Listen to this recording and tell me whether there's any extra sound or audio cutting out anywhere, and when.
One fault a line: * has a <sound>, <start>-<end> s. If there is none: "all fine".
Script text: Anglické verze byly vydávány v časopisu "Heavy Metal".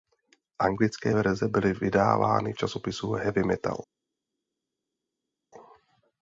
all fine